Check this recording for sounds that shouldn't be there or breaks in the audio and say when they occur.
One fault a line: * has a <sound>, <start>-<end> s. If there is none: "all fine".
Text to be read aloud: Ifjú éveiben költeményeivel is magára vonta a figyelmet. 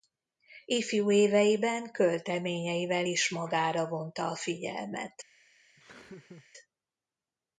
* has a laugh, 5.8-6.5 s